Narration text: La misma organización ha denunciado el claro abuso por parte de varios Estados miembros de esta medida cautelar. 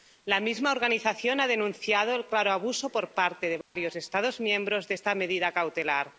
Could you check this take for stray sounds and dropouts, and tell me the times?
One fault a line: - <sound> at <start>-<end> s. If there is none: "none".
- dropout at 3.6-3.8 s